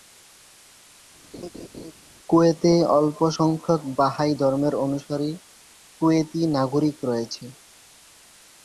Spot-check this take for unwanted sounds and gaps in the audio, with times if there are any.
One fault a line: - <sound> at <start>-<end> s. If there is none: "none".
- laugh at 1.3-1.9 s